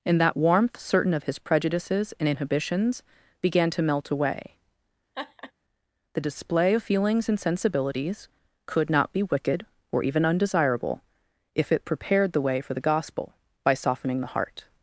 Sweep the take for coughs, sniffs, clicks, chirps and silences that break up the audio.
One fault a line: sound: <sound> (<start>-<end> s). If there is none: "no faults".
sound: laugh (5.1-5.5 s)